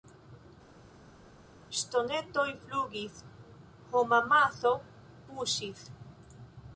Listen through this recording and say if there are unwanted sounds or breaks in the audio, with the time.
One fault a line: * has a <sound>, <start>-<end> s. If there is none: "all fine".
all fine